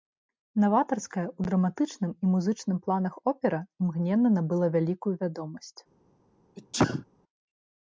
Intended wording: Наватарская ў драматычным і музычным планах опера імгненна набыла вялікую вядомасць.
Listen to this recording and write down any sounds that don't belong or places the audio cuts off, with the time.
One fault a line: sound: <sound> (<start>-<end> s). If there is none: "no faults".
sound: sneeze (6.6-7.1 s)